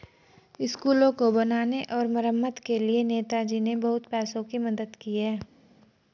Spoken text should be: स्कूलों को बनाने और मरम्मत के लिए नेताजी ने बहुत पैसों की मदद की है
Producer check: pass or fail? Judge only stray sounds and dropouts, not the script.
pass